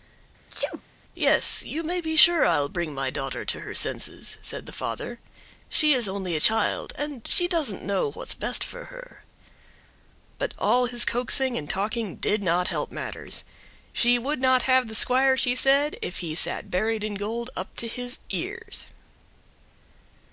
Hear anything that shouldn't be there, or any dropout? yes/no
yes